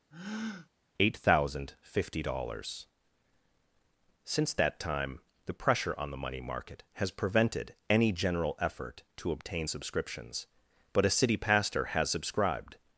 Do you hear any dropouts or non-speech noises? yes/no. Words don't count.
yes